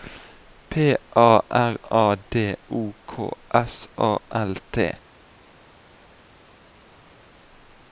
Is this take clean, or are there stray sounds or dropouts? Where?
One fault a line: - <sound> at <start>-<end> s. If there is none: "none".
none